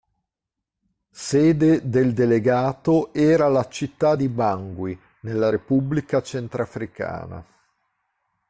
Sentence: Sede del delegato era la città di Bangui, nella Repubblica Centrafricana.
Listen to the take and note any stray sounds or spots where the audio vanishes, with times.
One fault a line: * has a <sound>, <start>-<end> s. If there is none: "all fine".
all fine